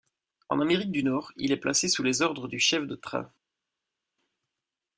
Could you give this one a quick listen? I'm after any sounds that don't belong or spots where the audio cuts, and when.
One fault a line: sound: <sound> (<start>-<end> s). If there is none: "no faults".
no faults